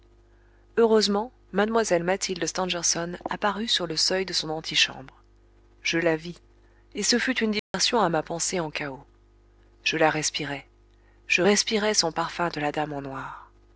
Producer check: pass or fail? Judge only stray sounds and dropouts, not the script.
fail